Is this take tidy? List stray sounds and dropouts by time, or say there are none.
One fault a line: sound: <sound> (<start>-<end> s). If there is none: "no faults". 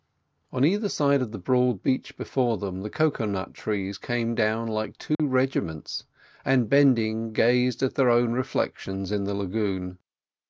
sound: dropout (5.1-5.2 s)